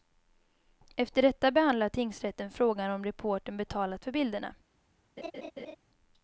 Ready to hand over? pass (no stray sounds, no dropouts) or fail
fail